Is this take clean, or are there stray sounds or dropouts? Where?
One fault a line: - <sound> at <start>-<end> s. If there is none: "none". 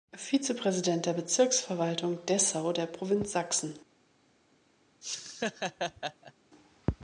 - laugh at 5.0-6.3 s